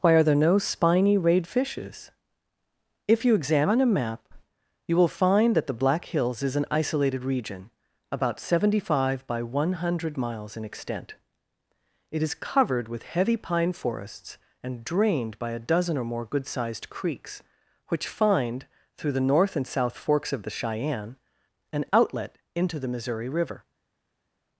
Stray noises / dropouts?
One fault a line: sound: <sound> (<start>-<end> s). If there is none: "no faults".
no faults